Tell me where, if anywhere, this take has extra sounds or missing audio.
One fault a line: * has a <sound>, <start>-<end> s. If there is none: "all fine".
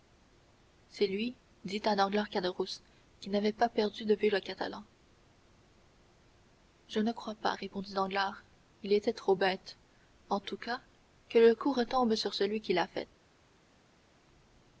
all fine